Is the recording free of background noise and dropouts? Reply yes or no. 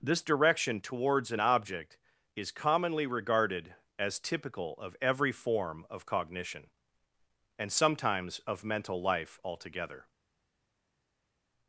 yes